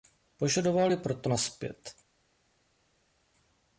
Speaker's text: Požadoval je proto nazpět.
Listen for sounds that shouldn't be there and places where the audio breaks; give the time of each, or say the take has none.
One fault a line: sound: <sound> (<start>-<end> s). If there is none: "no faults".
no faults